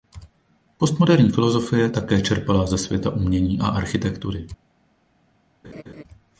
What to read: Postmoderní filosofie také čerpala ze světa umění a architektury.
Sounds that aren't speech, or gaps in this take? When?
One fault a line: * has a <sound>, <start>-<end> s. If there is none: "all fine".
* has a laugh, 5.6-6.0 s